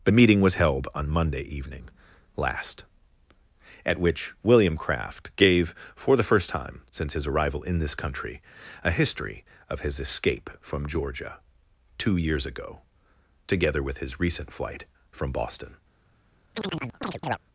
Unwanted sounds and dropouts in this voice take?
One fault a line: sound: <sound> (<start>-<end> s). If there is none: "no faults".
sound: chirp (16.5-17.4 s)